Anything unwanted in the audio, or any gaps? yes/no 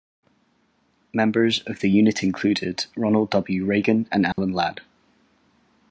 yes